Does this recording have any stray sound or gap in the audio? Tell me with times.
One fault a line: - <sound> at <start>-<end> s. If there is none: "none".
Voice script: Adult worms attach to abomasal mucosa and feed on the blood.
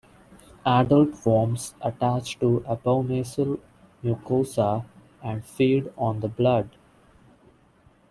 none